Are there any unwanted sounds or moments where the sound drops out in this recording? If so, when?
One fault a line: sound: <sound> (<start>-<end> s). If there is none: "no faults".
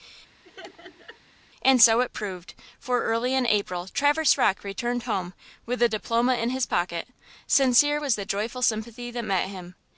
sound: laugh (0.4-1.2 s)